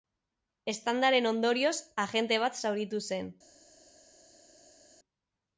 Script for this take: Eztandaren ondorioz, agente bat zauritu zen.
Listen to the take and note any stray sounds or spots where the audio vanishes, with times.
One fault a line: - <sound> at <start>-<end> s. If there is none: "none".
none